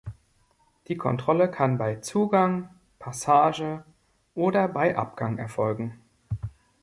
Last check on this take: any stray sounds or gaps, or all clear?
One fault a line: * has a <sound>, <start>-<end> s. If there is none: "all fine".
all fine